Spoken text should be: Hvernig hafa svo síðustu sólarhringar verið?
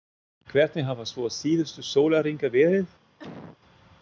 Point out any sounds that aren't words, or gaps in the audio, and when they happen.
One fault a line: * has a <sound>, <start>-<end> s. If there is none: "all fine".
* has a cough, 3.2-3.6 s